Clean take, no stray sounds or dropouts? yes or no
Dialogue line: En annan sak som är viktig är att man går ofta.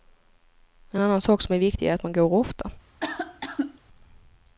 no